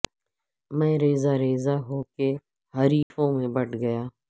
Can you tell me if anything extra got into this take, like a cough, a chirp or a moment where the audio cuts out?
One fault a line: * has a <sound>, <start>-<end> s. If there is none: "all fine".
* has a dropout, 3.0-3.1 s